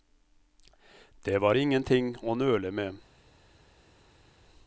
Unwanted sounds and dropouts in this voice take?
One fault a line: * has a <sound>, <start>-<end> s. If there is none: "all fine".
all fine